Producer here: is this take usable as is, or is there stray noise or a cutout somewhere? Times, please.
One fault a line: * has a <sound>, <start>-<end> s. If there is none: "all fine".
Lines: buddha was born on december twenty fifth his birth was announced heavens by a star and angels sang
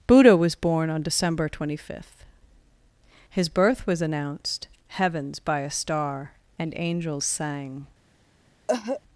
* has a cough, 8.7-9.0 s